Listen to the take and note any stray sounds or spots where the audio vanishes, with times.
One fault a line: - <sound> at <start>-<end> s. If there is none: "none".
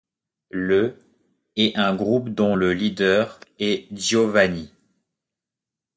none